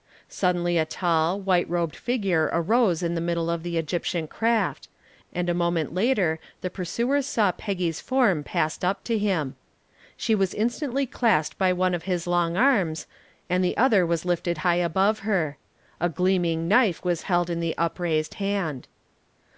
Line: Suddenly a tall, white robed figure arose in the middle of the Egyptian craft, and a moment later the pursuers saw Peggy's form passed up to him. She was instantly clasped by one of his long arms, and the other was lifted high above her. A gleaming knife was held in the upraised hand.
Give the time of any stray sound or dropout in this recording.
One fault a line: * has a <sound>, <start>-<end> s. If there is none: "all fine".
all fine